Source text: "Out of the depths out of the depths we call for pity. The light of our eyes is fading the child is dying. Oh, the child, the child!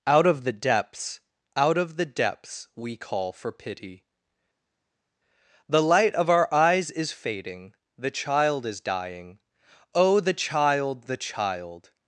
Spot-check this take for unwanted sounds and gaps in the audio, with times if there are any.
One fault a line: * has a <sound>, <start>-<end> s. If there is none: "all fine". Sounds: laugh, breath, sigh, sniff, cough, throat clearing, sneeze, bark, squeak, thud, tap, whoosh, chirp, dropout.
all fine